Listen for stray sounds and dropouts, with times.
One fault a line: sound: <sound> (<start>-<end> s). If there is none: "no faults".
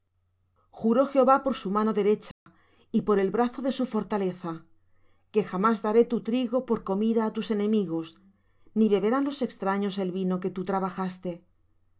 sound: dropout (2.3-2.5 s)